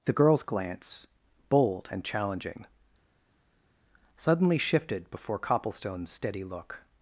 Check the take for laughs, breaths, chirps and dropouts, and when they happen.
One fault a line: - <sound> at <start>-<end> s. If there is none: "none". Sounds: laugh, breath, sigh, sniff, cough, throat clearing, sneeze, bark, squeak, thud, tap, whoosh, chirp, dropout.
none